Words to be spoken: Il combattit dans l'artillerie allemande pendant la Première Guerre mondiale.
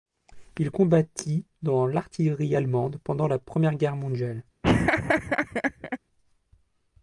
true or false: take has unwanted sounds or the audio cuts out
true